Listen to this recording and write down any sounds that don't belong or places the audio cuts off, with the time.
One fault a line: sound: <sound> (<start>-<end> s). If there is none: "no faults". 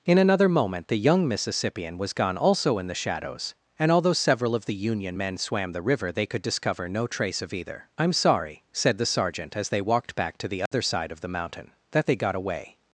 sound: dropout (10.7-10.7 s)